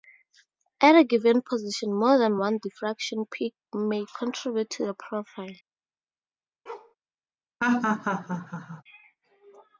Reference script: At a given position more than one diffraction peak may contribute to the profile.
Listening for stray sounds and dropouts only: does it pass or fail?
fail